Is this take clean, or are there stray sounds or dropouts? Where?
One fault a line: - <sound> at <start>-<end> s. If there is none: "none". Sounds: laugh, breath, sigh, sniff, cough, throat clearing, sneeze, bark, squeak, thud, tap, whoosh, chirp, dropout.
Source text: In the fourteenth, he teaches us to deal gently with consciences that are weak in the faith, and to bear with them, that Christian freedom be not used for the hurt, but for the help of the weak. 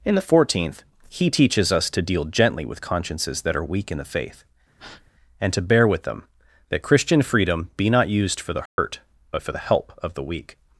- breath at 4.8-5.1 s
- dropout at 8.7-8.8 s